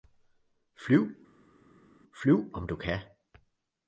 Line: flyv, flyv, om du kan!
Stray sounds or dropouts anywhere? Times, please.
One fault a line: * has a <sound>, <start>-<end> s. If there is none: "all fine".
all fine